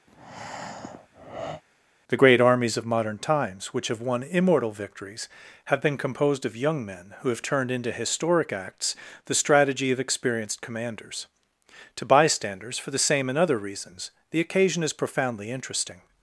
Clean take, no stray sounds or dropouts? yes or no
no